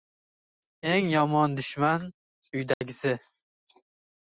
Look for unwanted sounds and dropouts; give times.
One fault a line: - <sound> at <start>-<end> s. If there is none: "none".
- dropout at 2.7-2.8 s